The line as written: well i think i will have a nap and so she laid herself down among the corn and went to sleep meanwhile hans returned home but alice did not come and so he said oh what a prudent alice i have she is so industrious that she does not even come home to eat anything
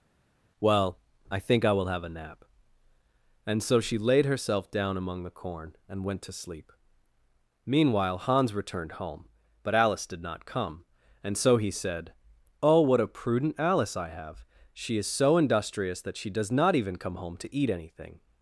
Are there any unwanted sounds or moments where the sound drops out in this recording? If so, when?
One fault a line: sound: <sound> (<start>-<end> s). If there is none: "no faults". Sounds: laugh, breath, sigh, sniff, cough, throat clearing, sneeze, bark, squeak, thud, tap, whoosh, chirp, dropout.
no faults